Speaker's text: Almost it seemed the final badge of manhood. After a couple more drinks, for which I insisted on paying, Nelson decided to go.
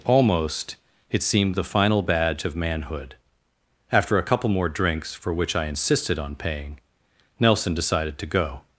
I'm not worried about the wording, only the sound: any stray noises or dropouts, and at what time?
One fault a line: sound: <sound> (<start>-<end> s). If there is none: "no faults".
no faults